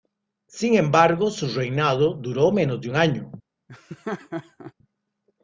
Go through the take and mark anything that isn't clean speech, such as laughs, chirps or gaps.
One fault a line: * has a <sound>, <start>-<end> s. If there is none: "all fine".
* has a laugh, 3.7-4.7 s